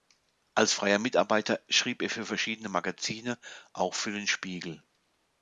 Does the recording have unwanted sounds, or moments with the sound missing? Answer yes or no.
no